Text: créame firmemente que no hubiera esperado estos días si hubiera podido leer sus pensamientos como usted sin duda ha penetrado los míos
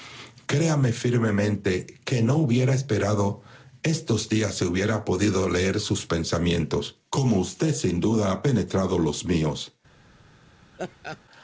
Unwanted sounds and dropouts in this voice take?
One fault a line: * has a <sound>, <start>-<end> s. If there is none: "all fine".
* has a laugh, 10.7-11.2 s